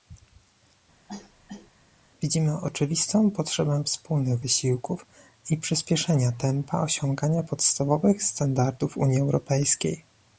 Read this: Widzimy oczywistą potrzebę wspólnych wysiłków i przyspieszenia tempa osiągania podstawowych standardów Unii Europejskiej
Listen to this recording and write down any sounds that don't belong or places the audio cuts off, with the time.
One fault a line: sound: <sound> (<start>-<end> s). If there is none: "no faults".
sound: cough (1.1-1.7 s)